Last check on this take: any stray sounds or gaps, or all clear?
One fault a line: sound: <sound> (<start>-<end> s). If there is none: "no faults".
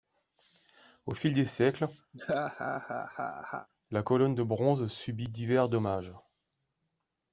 sound: laugh (2.1-3.7 s)